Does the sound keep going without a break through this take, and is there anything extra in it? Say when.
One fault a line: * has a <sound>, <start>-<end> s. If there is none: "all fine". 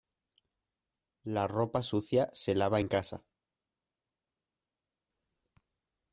all fine